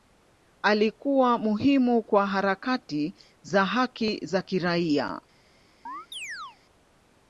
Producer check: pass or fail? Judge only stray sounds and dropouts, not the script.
fail